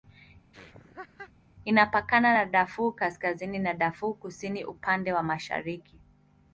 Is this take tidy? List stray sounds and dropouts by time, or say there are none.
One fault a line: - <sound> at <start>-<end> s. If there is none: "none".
- laugh at 0.5-1.3 s